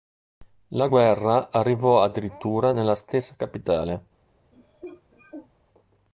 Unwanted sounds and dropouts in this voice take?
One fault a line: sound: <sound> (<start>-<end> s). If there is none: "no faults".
sound: cough (4.5-5.5 s)